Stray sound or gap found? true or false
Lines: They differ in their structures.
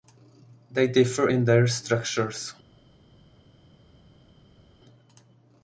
false